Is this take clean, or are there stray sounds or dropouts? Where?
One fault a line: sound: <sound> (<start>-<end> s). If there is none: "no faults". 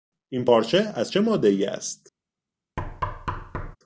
sound: thud (2.8-3.8 s)